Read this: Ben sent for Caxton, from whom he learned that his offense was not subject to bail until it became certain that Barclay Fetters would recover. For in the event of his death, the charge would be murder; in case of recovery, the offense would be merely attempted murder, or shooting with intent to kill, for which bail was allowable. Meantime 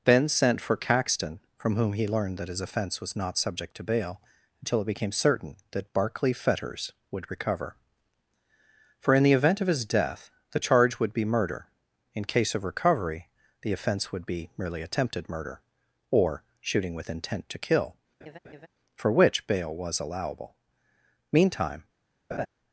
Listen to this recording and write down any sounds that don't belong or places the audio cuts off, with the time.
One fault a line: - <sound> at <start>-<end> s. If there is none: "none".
- laugh at 18.2-18.7 s
- laugh at 22.3-22.5 s